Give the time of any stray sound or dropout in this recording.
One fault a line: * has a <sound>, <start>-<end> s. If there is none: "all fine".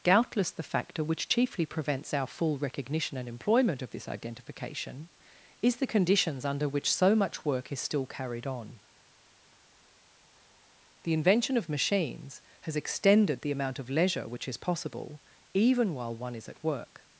all fine